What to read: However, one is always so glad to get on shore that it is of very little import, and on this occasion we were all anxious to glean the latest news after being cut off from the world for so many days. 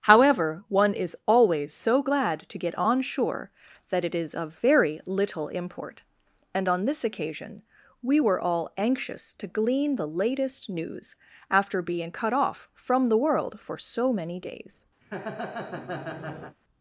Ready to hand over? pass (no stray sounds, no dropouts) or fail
fail